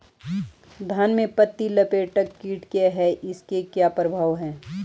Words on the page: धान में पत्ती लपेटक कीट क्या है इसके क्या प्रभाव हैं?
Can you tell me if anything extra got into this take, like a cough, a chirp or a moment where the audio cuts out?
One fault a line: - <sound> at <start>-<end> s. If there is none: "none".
none